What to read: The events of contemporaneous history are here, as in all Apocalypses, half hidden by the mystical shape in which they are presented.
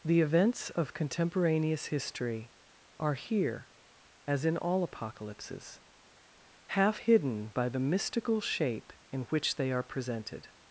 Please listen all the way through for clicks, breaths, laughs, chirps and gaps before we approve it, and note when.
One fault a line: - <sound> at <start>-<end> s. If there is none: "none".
none